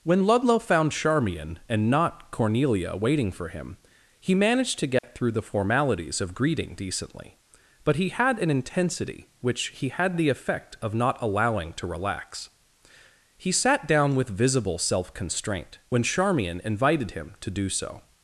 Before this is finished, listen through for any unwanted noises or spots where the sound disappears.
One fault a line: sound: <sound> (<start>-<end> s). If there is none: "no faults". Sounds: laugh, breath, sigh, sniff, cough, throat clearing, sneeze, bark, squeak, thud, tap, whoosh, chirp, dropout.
sound: dropout (5.0-5.0 s)